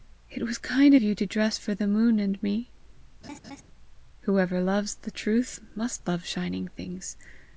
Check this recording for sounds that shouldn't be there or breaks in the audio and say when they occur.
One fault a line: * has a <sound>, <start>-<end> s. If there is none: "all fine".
* has a laugh, 3.2-3.6 s